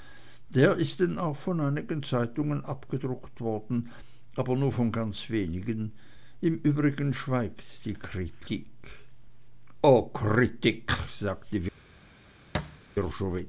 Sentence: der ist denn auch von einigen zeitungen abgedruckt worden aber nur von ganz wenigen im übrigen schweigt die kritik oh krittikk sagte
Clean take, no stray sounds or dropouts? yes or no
no